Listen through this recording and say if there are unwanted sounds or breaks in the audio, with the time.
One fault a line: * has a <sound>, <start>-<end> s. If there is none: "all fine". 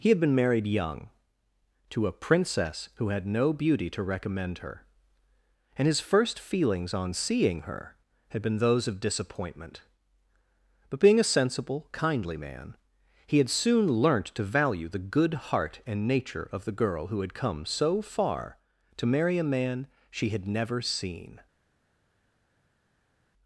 all fine